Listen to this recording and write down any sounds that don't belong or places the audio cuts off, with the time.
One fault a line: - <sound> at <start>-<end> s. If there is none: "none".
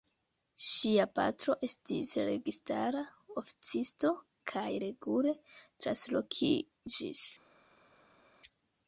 none